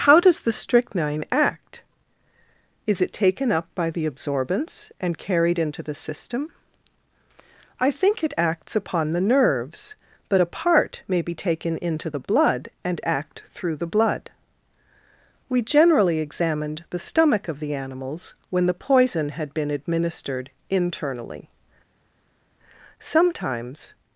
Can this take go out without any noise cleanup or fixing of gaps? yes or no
yes